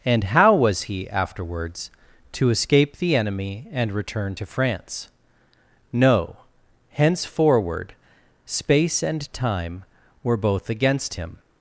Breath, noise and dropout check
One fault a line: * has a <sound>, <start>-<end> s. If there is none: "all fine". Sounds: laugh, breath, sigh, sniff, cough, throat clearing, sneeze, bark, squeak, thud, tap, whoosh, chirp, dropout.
all fine